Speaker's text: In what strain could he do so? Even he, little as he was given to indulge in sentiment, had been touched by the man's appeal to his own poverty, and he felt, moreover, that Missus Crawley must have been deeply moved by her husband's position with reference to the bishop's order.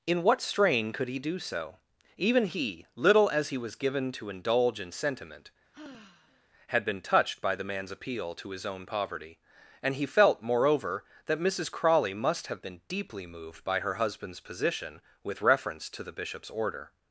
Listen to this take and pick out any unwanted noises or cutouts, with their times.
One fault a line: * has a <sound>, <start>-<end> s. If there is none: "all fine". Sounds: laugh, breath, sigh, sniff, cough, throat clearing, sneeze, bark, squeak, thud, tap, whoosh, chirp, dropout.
* has a sigh, 5.7-6.5 s